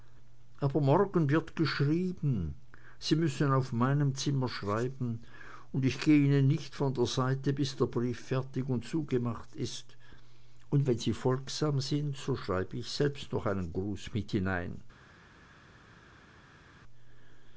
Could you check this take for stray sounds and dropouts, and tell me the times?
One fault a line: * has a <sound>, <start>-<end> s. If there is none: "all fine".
all fine